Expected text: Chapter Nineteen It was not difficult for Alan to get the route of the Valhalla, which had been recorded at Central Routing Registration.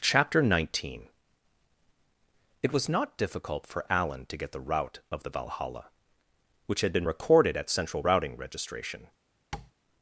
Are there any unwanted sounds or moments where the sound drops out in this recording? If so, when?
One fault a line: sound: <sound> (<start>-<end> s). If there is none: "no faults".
sound: tap (9.5-9.7 s)